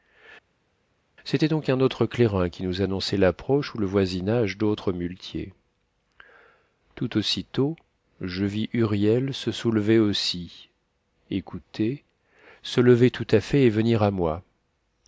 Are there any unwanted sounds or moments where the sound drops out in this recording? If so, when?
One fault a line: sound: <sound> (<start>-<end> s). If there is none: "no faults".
no faults